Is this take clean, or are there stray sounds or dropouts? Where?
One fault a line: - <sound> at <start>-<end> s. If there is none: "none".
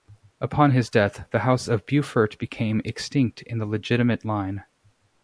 none